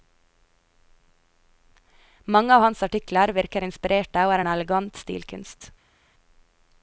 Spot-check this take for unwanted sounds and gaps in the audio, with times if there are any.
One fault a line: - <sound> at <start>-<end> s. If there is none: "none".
none